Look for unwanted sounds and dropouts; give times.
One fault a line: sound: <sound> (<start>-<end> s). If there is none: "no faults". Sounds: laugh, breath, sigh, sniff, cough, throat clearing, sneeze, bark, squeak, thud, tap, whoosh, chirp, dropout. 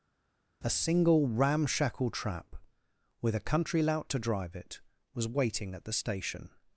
no faults